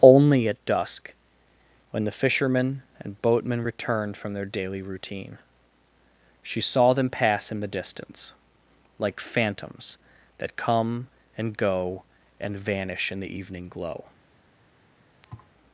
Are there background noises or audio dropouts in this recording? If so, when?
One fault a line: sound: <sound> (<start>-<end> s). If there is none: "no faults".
sound: thud (15.2-15.5 s)